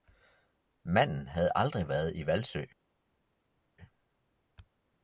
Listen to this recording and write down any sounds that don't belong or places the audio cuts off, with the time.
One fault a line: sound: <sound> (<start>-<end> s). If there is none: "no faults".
no faults